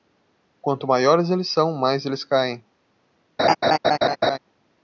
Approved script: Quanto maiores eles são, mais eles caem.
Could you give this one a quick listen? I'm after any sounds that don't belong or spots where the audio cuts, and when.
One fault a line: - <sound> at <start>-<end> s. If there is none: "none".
- laugh at 3.4-4.4 s